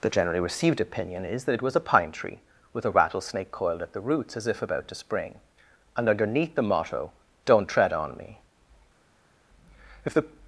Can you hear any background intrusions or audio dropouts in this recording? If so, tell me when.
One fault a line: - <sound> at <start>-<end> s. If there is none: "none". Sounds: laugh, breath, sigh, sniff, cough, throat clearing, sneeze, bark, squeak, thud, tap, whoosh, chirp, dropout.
none